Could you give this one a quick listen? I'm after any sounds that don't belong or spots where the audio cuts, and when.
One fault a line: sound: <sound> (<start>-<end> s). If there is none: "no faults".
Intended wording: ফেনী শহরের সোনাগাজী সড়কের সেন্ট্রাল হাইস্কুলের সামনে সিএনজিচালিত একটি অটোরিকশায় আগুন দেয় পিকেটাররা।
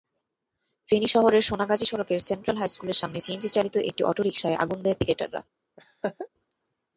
sound: laugh (5.8-6.3 s)